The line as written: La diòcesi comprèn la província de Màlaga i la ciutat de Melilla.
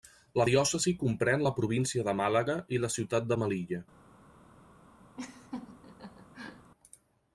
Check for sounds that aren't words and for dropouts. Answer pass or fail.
fail